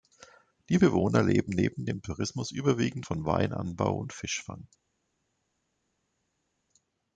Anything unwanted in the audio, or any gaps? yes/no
no